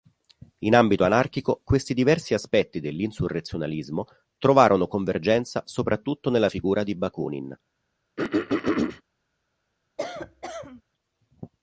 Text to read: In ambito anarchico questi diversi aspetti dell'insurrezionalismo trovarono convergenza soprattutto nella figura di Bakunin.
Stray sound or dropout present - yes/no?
yes